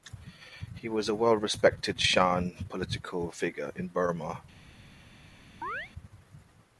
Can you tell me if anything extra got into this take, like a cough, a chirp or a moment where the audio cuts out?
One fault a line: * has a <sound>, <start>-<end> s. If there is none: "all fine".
* has a chirp, 5.6-5.9 s